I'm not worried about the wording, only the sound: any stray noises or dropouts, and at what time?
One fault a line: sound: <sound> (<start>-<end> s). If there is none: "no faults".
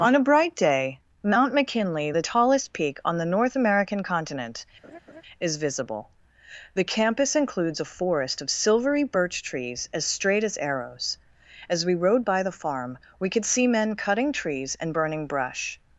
sound: laugh (4.8-5.2 s)